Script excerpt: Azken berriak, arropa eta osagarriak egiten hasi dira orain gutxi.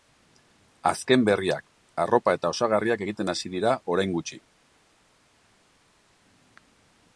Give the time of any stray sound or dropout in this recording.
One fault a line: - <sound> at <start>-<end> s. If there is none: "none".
none